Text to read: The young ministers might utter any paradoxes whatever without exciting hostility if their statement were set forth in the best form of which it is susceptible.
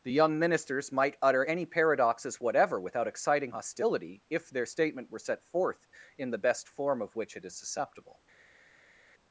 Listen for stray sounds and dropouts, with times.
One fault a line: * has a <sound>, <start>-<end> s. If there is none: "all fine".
all fine